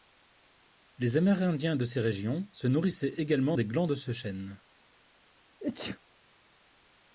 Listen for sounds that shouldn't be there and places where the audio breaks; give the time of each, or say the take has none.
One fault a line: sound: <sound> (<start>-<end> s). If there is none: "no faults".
sound: sneeze (5.6-6.0 s)